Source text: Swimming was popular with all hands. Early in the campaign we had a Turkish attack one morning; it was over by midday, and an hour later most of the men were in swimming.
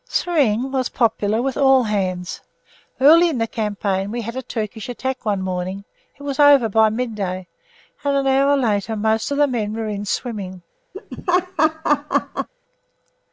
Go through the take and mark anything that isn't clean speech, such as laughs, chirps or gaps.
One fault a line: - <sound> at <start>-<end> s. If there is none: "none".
- laugh at 10.9-12.5 s